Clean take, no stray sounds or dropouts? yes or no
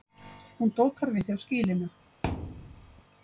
no